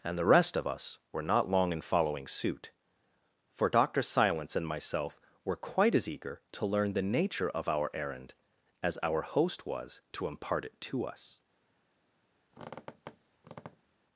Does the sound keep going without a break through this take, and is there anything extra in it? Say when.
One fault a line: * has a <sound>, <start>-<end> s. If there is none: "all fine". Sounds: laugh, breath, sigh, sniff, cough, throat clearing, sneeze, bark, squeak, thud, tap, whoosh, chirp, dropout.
* has a squeak, 12.5-14.0 s